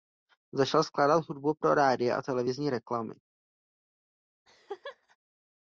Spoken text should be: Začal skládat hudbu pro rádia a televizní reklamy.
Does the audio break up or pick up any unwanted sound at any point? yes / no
yes